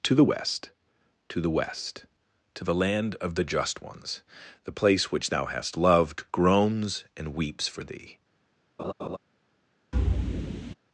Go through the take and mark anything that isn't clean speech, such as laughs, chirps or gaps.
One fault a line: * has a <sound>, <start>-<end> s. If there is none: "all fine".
* has a laugh, 8.8-9.2 s
* has a thud, 9.9-10.7 s